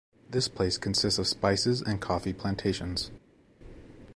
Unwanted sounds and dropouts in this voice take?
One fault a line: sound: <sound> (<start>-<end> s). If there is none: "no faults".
no faults